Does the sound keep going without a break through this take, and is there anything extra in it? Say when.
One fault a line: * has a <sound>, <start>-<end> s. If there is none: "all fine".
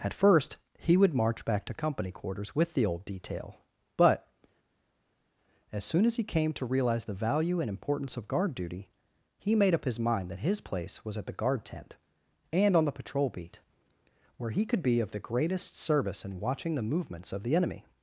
all fine